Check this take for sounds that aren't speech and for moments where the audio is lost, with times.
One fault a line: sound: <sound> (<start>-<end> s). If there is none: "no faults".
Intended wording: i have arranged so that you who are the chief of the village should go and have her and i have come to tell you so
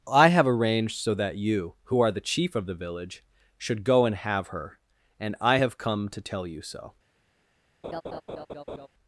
sound: laugh (7.8-8.9 s)